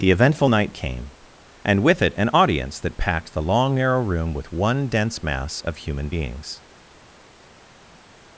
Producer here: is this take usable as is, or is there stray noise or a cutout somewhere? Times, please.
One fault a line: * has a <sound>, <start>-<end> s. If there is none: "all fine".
all fine